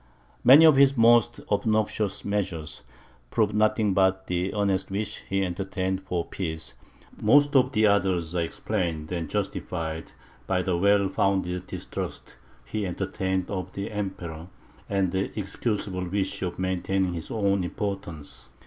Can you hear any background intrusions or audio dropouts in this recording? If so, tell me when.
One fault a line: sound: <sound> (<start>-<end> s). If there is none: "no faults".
no faults